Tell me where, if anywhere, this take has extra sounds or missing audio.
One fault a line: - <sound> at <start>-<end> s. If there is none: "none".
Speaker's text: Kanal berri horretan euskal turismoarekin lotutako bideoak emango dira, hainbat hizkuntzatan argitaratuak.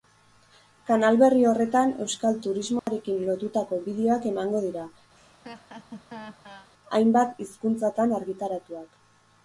- dropout at 2.8-2.9 s
- laugh at 5.1-6.7 s